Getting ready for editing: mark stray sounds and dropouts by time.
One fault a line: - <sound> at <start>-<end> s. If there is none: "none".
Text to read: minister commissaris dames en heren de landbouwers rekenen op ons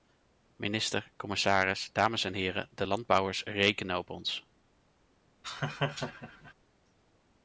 - laugh at 5.4-6.5 s